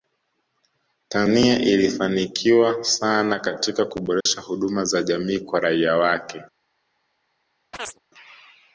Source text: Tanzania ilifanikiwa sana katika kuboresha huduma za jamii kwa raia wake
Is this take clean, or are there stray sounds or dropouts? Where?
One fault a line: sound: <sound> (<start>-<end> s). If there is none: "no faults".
sound: dropout (4.2-4.3 s)
sound: chirp (7.7-8.0 s)